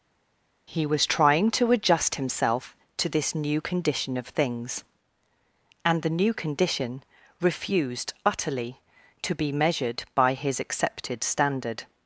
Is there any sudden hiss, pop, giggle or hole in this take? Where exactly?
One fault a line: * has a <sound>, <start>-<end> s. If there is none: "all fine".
all fine